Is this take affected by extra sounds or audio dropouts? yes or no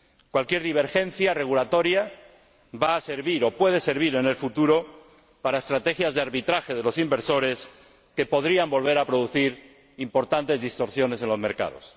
no